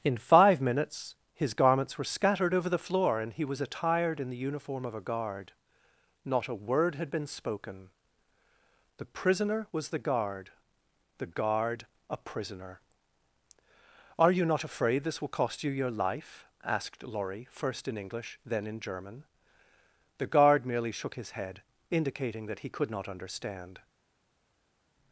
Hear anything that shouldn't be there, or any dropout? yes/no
no